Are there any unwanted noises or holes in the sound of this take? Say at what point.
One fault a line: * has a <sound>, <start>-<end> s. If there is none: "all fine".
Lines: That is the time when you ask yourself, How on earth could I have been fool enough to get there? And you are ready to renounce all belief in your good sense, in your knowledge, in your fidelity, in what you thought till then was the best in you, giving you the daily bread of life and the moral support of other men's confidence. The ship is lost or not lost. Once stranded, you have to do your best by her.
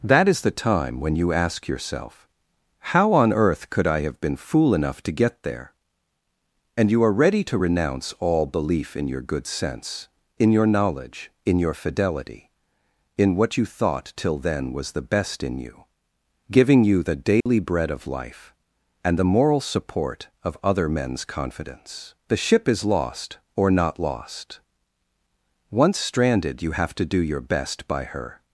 * has a dropout, 17.4-17.5 s